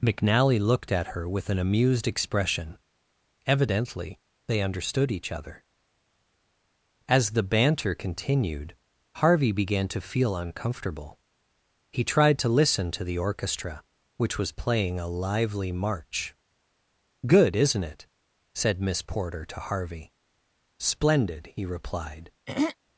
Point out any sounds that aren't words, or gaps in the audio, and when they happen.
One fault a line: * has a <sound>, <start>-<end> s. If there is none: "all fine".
* has a throat clearing, 22.5-22.8 s